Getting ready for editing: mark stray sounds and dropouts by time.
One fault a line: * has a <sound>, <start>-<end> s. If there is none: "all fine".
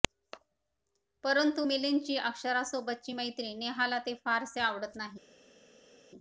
all fine